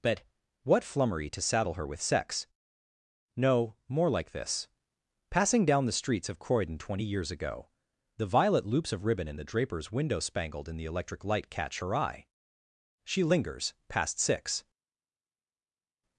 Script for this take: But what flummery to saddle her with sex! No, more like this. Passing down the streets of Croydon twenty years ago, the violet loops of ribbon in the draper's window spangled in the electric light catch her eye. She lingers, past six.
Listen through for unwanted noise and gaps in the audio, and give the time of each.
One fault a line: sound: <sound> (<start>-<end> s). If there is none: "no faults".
no faults